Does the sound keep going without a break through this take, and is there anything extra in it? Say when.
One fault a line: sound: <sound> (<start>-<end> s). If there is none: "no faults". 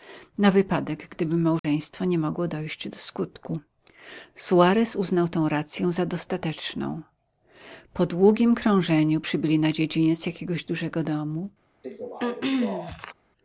sound: dropout (1.6-1.6 s)
sound: throat clearing (11.8-13.1 s)